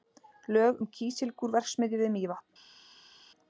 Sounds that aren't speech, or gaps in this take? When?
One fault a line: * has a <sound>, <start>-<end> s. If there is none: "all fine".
all fine